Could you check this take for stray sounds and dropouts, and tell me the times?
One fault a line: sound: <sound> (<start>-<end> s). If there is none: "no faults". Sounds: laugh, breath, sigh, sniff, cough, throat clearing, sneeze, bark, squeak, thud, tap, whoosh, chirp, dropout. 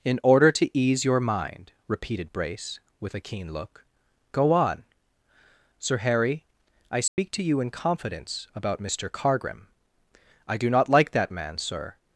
sound: dropout (7.1-7.2 s)